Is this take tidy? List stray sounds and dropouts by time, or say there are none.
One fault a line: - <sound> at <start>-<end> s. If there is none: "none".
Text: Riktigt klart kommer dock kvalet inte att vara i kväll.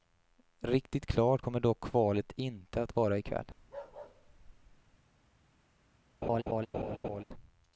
- bark at 3.6-5.0 s
- laugh at 6.2-7.2 s